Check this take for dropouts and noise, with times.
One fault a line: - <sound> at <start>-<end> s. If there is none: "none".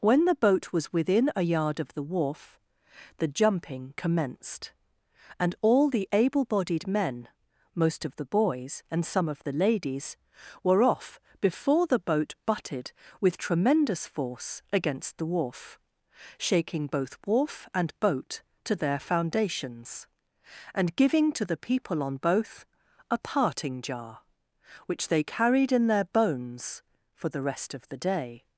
none